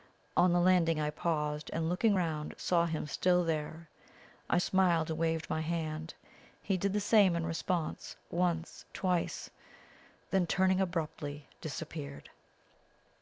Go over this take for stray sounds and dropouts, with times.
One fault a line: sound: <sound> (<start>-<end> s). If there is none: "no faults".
no faults